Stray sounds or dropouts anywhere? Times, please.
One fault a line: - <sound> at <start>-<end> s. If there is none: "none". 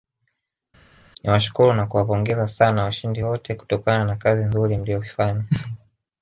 none